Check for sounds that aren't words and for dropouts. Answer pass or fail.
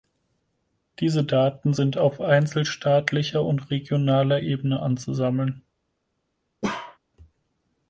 fail